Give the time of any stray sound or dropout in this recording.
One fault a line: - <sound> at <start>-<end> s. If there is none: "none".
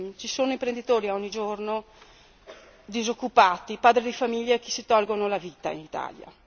none